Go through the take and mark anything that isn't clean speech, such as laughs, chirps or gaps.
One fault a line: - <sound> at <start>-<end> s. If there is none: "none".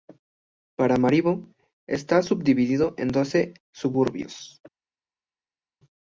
none